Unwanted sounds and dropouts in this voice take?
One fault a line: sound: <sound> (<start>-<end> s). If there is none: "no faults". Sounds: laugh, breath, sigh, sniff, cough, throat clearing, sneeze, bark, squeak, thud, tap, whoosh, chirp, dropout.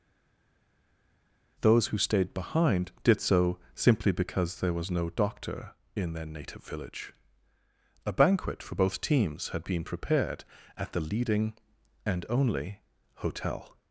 no faults